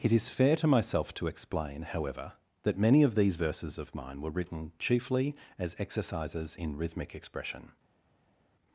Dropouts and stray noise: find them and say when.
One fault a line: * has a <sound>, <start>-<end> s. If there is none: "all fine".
all fine